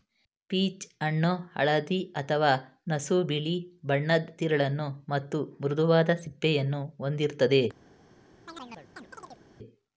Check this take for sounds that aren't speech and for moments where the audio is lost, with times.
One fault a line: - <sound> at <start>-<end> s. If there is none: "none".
- chirp at 8.5-9.4 s